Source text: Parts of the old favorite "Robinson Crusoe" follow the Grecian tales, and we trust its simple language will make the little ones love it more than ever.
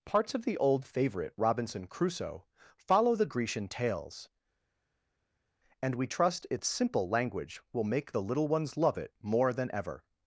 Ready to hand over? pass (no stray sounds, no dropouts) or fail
pass